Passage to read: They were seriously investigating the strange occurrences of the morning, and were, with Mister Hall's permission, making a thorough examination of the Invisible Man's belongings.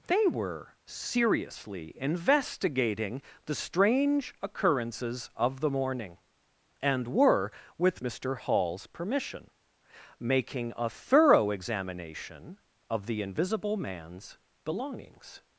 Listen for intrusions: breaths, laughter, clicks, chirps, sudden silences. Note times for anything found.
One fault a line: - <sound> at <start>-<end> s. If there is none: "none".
none